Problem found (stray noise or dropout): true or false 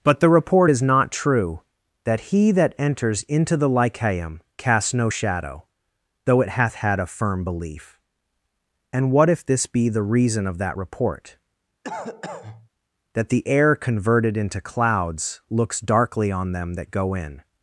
true